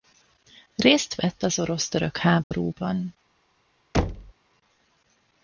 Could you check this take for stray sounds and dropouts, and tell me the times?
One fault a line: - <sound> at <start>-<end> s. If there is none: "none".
- dropout at 2.4-2.5 s
- thud at 3.9-4.3 s